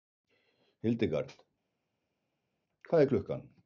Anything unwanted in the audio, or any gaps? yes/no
no